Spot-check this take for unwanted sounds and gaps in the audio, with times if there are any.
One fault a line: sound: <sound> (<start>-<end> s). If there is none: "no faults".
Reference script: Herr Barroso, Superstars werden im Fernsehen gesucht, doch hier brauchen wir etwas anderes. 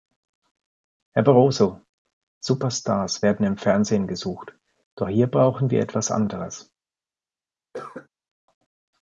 sound: cough (7.7-8.1 s)